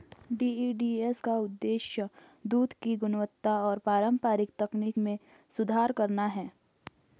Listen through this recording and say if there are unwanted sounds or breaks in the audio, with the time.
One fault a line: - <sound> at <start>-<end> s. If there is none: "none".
none